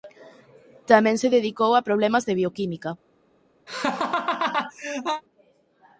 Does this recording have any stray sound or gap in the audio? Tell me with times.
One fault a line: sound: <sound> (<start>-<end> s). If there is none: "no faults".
sound: laugh (3.7-5.2 s)